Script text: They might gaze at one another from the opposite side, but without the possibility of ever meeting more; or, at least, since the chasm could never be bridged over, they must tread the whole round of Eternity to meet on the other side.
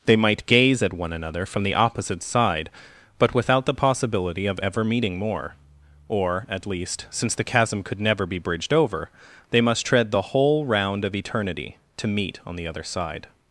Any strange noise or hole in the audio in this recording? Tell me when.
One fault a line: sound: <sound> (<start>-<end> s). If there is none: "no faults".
no faults